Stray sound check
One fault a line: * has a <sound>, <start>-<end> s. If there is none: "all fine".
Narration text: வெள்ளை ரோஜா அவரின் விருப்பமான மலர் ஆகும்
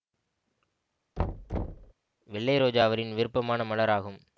* has a thud, 1.2-1.9 s